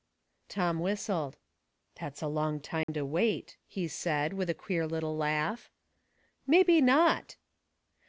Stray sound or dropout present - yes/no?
yes